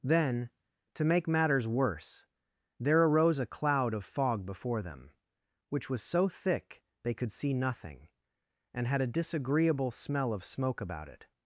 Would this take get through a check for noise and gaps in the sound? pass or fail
pass